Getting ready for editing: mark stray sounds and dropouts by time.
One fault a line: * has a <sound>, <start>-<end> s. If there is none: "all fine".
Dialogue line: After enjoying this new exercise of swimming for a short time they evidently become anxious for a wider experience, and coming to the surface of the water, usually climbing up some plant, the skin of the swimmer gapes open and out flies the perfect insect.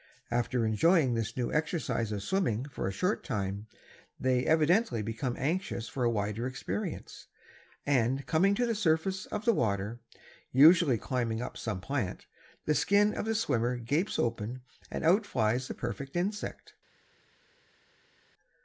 all fine